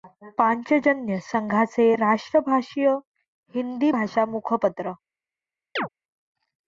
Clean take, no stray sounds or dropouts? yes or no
no